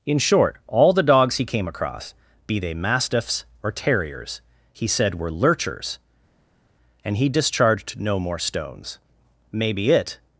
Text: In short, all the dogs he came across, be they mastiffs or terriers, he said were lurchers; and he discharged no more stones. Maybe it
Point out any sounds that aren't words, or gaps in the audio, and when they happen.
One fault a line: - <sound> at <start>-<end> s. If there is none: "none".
none